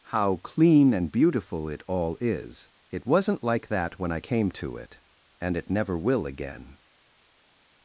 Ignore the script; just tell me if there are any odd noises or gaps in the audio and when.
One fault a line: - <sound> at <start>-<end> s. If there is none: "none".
none